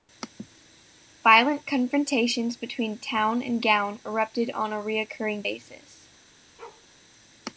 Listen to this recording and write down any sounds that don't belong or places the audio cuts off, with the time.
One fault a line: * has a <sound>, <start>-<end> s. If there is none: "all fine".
* has a bark, 6.6-6.9 s